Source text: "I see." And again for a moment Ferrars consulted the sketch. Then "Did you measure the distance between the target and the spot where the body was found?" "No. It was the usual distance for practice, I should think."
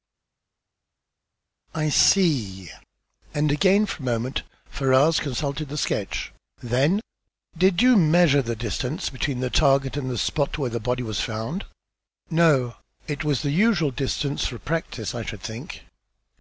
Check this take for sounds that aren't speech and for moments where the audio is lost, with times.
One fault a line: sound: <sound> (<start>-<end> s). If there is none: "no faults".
no faults